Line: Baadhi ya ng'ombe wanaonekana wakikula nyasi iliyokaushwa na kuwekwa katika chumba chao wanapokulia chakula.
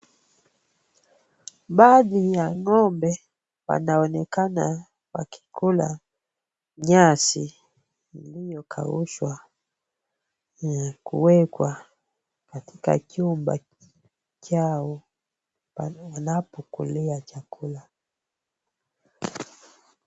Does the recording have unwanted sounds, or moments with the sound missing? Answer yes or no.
no